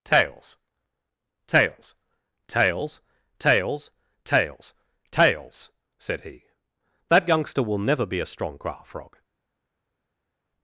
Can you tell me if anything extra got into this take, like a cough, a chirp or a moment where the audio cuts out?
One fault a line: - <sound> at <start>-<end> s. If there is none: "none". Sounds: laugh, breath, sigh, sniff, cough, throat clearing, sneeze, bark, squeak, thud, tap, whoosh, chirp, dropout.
none